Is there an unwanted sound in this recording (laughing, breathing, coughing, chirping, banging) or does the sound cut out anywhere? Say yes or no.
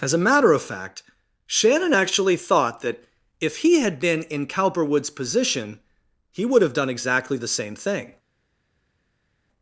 no